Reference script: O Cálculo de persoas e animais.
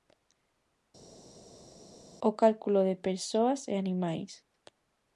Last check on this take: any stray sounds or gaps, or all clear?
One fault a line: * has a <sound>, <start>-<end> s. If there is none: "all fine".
all fine